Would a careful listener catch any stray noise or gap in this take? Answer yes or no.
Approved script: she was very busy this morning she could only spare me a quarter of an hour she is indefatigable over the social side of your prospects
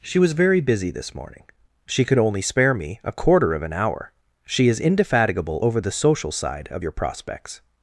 no